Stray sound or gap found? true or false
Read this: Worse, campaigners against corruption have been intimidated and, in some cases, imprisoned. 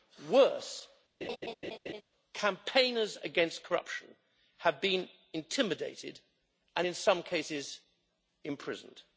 true